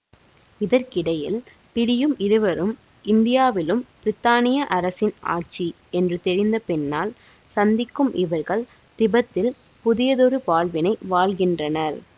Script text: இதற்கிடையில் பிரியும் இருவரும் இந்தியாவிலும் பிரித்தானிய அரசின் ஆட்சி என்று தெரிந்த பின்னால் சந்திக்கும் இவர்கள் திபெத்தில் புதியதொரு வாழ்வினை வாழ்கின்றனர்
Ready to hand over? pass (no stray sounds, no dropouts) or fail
pass